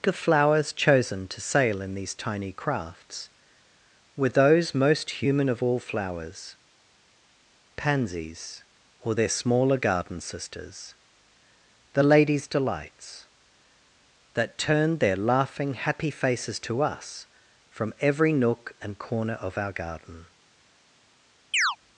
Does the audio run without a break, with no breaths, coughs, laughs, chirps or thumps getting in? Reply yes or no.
no